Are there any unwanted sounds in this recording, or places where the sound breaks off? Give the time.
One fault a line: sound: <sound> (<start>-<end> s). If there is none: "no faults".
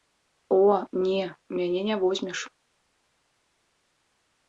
no faults